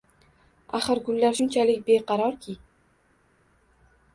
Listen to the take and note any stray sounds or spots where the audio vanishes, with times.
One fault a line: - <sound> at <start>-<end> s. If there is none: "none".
none